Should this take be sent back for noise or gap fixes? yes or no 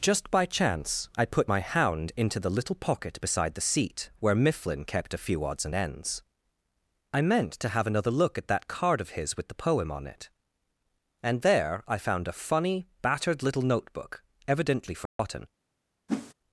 yes